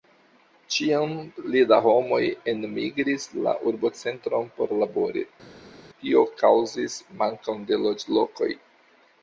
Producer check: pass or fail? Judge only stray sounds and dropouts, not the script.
pass